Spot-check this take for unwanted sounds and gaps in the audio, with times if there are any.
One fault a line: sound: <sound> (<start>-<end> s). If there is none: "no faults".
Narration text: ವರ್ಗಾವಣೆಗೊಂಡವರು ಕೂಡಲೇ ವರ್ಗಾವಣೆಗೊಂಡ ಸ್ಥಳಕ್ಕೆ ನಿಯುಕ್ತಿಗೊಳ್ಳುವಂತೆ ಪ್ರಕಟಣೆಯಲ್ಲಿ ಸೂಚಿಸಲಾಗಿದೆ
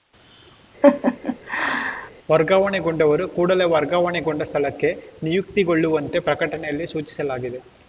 sound: laugh (0.8-2.1 s)